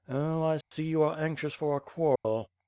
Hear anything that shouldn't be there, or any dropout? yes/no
yes